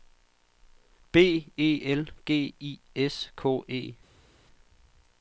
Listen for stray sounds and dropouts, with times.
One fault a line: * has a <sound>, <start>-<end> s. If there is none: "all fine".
all fine